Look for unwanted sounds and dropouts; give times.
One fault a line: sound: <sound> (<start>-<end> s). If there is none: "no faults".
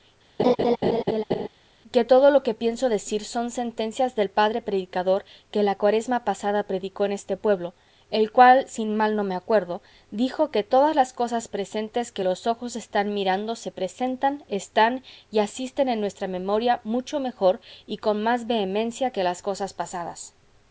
sound: laugh (0.4-1.5 s)